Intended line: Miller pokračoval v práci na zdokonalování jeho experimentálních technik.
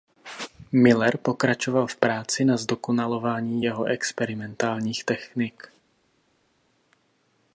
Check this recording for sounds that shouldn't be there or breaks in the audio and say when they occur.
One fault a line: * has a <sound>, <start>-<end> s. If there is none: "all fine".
all fine